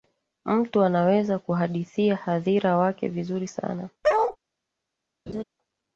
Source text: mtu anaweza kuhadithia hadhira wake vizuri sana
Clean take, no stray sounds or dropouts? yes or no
no